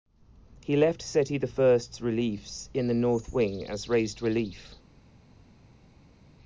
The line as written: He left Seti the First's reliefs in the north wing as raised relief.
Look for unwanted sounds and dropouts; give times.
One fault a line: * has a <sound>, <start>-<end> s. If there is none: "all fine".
all fine